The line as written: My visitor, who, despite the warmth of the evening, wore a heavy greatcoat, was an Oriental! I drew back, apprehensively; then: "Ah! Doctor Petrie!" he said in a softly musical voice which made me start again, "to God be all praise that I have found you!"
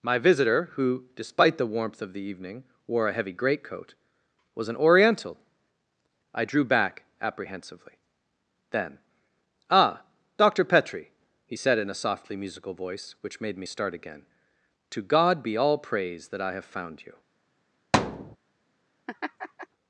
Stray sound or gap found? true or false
true